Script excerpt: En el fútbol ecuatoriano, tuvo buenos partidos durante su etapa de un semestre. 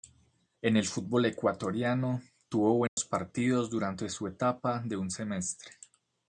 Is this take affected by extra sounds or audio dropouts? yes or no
yes